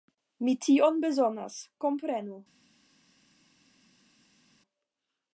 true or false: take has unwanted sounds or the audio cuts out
false